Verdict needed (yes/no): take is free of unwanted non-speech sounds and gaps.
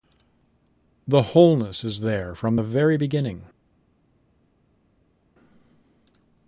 yes